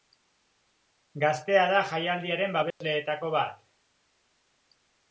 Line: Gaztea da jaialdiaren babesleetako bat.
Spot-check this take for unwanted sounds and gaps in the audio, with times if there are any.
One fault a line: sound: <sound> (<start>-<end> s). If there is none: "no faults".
sound: dropout (2.7-2.8 s)